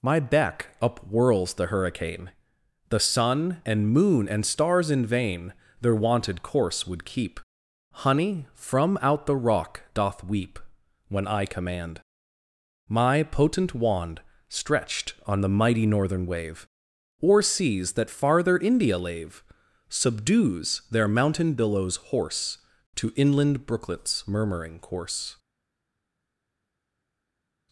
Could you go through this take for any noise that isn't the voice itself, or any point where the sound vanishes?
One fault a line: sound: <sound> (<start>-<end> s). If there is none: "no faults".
no faults